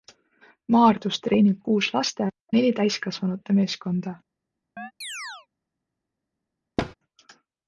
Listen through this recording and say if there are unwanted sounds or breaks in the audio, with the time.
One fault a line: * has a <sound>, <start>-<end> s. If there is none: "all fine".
* has a chirp, 4.8-5.5 s
* has a thud, 6.8-6.9 s